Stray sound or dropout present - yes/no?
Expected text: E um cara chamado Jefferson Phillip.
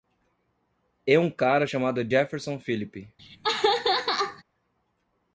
yes